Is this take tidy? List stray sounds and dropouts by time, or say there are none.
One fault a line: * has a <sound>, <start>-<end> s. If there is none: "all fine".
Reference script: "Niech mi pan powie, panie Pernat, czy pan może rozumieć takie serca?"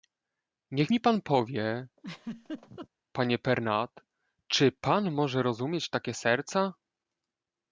* has a laugh, 2.0-2.9 s